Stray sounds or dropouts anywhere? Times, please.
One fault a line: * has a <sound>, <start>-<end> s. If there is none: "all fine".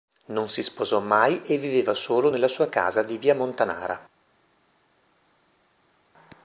all fine